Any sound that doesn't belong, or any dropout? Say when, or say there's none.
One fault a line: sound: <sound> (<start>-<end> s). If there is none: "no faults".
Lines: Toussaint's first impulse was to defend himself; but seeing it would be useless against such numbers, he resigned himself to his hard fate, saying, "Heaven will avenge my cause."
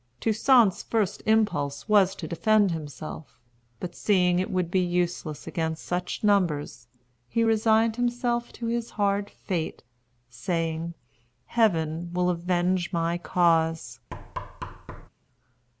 sound: thud (14.1-15.1 s)